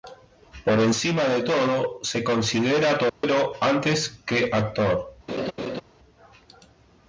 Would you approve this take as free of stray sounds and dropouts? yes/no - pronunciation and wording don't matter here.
no